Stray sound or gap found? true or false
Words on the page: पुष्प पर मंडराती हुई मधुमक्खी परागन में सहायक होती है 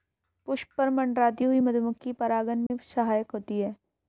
true